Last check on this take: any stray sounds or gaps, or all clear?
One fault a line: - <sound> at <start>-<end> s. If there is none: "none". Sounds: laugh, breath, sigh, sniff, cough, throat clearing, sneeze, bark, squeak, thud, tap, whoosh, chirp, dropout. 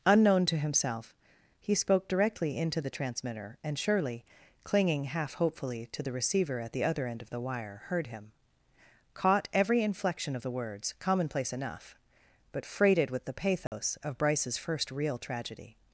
- dropout at 13.7-13.7 s